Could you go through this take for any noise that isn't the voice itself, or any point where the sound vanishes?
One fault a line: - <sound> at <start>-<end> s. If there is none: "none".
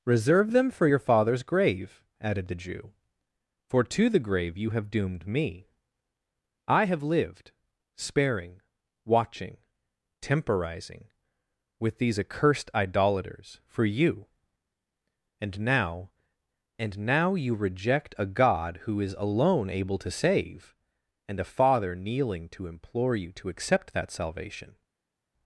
none